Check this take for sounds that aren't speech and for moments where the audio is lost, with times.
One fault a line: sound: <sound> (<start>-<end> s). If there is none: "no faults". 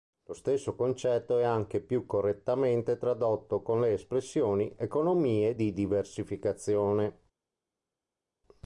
no faults